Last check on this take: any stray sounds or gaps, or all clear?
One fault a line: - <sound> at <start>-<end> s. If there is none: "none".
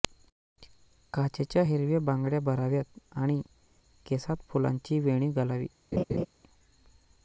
- laugh at 5.9-6.3 s